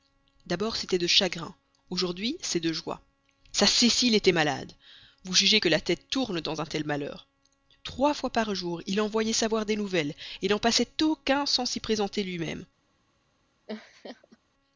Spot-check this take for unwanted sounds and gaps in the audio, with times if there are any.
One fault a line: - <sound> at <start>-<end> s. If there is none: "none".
- laugh at 13.7-14.4 s